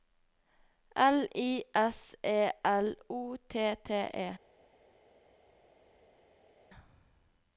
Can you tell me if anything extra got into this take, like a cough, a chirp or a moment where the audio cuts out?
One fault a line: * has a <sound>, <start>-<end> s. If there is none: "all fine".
all fine